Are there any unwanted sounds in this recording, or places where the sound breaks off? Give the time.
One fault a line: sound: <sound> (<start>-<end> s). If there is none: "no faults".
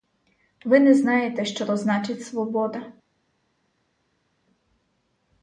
no faults